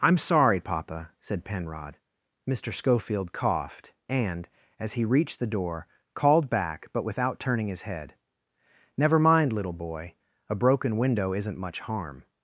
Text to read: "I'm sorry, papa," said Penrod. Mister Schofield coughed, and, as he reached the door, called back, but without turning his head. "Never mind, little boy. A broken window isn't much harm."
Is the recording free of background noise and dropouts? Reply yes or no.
yes